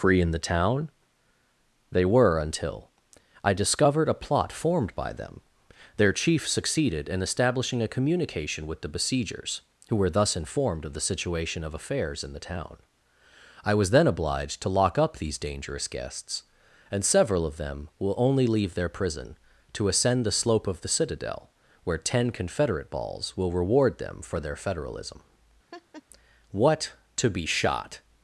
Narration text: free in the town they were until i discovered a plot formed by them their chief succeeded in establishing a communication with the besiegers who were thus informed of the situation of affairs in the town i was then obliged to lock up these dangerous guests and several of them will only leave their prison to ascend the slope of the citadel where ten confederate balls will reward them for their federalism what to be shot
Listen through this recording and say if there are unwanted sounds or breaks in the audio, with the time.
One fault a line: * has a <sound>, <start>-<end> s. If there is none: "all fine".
* has a laugh, 25.7-26.0 s